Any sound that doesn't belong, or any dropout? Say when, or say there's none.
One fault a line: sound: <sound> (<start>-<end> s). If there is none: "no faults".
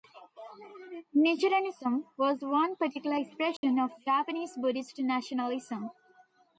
sound: dropout (3.6-3.6 s)